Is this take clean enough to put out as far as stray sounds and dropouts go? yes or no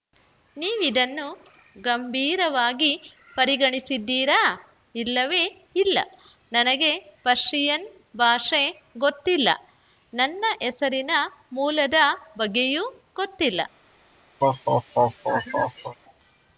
no